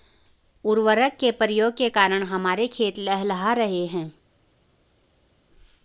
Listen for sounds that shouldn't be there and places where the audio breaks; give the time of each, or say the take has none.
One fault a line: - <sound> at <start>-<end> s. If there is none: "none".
none